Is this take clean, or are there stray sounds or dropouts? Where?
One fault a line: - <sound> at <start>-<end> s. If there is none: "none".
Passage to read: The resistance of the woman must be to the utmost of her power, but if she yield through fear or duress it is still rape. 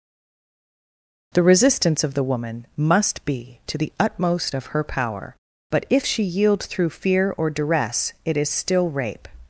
none